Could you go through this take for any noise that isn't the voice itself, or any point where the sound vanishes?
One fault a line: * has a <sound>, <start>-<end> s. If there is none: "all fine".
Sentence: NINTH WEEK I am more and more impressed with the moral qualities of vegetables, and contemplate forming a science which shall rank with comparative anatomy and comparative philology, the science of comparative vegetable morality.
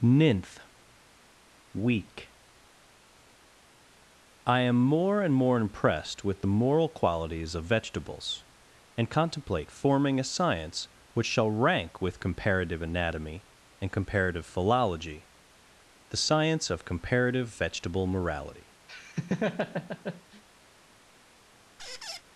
* has a laugh, 18.9-20.4 s
* has a squeak, 21.8-22.2 s